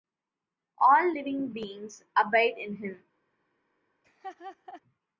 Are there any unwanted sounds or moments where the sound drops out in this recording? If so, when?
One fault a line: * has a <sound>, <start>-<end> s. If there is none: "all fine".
* has a laugh, 4.0-4.8 s